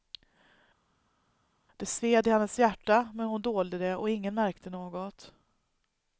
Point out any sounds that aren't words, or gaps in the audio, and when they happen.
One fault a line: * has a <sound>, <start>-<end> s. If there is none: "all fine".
all fine